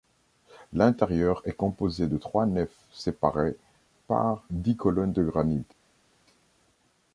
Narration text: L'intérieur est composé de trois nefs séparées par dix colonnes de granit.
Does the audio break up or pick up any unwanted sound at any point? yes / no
no